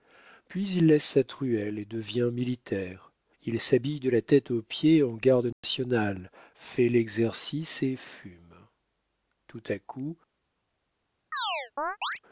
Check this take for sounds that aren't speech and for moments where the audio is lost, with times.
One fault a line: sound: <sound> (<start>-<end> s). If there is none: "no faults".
sound: dropout (5.5-5.6 s)
sound: chirp (11.3-12.2 s)